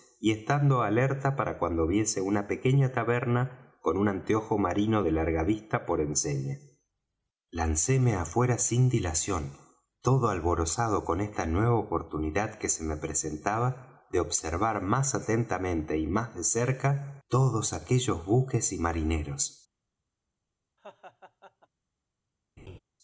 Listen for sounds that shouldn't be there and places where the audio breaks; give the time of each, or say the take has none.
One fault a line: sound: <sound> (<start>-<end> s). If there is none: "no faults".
sound: laugh (20.8-21.7 s)
sound: laugh (22.6-22.8 s)